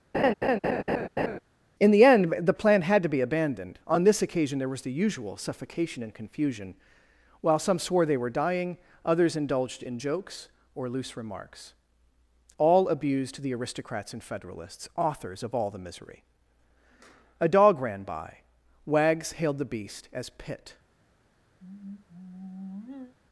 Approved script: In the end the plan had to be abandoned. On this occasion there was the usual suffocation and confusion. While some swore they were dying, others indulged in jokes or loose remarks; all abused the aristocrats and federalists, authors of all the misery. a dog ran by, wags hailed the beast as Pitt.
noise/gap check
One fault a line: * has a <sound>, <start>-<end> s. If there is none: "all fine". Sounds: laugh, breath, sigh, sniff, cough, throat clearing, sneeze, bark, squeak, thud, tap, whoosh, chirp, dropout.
* has a laugh, 0.1-1.4 s
* has a sigh, 21.6-23.2 s